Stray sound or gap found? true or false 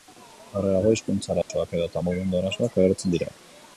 true